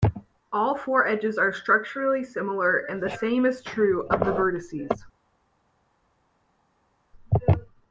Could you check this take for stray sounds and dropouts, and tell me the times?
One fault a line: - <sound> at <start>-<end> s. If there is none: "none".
none